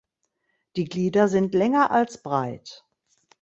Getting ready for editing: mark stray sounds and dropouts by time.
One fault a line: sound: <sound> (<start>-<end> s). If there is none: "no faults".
no faults